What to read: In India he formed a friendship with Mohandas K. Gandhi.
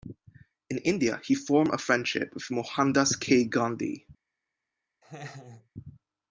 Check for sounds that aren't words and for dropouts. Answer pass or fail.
fail